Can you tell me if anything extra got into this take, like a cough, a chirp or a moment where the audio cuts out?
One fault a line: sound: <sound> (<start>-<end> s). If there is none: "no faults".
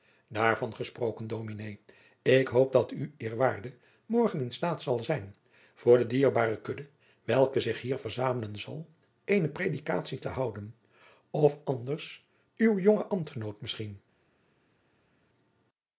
no faults